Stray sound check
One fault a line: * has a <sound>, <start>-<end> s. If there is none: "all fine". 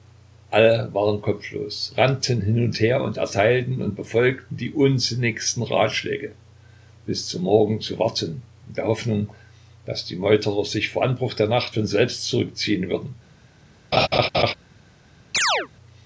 * has a laugh, 13.9-14.5 s
* has a chirp, 15.3-15.7 s